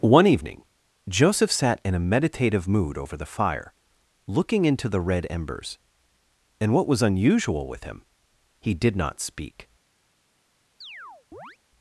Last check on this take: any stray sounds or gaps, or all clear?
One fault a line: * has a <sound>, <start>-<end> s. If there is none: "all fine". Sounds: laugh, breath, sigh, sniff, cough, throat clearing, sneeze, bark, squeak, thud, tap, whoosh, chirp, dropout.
* has a chirp, 10.8-11.6 s